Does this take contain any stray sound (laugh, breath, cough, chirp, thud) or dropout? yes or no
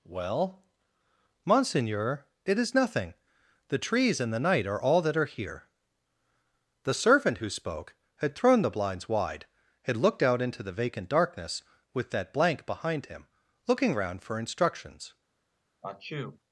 yes